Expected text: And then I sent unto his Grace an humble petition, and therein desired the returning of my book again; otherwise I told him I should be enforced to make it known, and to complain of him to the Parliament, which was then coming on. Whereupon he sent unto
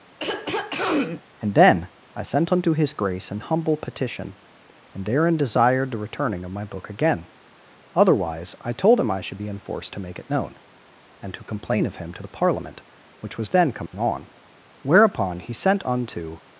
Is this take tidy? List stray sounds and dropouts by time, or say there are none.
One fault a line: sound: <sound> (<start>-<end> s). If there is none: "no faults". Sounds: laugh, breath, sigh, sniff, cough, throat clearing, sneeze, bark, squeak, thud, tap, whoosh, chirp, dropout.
sound: throat clearing (0.2-1.2 s)
sound: dropout (13.9-13.9 s)